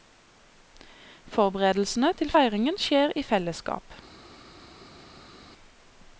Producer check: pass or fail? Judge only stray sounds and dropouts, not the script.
pass